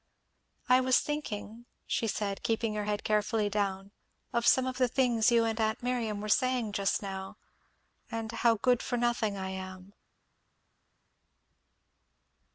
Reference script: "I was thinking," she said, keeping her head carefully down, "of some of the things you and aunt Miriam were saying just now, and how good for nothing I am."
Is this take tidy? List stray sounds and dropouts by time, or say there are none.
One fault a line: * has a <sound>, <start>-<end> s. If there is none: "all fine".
all fine